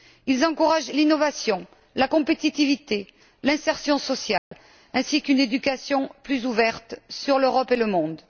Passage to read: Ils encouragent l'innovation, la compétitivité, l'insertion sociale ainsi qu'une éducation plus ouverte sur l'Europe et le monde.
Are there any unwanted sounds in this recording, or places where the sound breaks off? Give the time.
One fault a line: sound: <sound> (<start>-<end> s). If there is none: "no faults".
sound: dropout (4.4-4.5 s)